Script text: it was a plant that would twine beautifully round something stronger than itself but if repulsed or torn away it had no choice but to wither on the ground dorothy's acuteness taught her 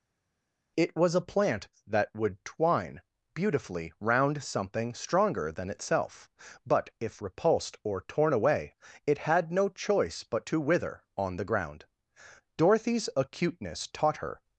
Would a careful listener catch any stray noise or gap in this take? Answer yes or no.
no